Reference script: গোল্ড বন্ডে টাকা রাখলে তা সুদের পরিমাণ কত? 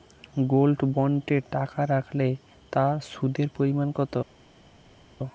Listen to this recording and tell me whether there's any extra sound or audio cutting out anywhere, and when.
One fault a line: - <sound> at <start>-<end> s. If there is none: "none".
none